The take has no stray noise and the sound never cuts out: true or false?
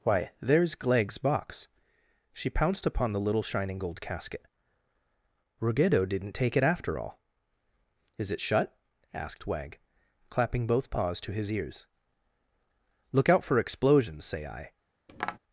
false